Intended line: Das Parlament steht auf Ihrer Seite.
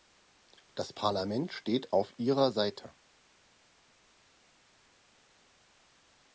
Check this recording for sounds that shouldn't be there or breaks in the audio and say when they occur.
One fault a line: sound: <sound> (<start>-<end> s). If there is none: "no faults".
no faults